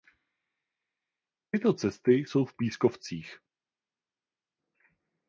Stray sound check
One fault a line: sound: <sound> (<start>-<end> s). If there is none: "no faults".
no faults